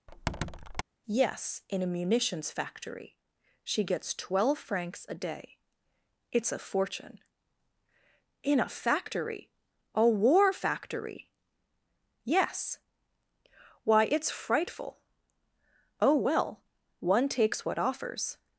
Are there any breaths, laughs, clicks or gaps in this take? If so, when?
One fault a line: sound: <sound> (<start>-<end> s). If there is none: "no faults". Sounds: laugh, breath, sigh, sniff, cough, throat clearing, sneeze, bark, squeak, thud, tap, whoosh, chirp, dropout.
sound: squeak (0.1-0.8 s)